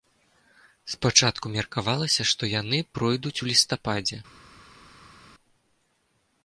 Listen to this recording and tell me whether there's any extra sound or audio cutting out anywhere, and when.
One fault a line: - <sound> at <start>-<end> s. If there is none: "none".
none